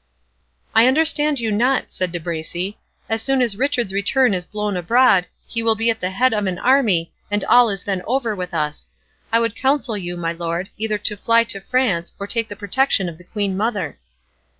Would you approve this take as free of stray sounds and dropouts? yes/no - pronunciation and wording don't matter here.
yes